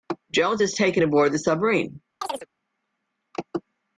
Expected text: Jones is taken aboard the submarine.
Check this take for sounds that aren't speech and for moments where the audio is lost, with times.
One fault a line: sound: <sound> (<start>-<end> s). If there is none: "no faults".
sound: chirp (2.2-2.5 s)